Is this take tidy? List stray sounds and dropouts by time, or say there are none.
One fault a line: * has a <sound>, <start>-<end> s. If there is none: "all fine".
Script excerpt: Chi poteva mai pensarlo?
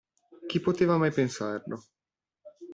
all fine